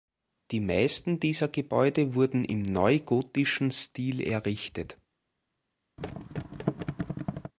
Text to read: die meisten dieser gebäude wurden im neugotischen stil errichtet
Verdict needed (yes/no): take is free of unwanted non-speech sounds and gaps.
no